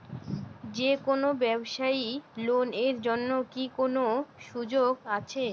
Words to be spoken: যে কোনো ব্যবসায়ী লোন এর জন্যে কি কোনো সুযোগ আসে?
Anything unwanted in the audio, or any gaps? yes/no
no